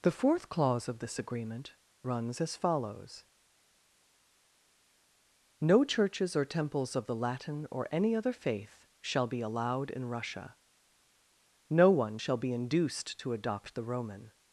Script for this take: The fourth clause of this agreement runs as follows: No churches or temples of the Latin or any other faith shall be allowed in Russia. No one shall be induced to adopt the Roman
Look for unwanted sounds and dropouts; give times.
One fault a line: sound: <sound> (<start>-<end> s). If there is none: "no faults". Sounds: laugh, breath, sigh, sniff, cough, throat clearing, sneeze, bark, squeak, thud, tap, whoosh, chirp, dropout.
no faults